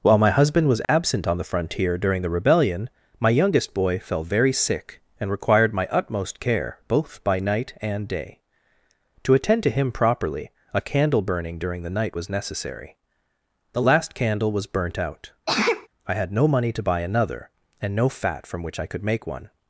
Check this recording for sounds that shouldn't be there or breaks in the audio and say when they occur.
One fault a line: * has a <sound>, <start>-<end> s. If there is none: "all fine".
* has a dropout, 0.8-0.9 s
* has a sneeze, 15.5-15.9 s